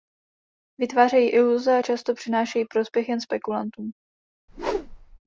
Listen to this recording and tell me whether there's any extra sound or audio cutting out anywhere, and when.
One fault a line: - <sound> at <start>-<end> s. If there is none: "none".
- whoosh at 4.5-5.2 s